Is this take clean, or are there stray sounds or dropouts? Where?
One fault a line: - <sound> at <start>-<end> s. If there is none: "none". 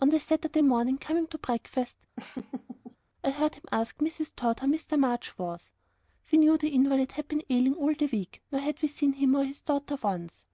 - laugh at 2.2-3.0 s